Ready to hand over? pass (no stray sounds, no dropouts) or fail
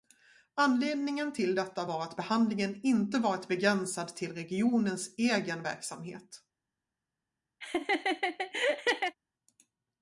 fail